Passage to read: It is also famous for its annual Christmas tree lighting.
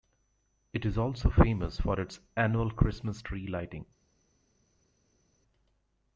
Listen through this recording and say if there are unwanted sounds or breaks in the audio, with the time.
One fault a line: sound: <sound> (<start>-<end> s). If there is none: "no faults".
no faults